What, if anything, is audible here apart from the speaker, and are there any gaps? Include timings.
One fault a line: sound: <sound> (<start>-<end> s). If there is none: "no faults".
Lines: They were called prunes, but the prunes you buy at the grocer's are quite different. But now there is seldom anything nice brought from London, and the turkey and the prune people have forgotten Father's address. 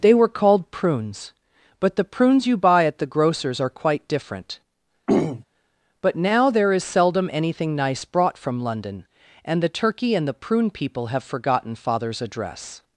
sound: throat clearing (5.1-5.4 s)